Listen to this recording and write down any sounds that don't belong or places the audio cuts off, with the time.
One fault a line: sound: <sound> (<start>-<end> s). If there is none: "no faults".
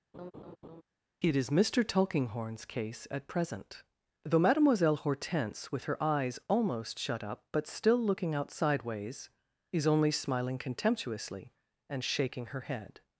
sound: laugh (0.1-0.8 s)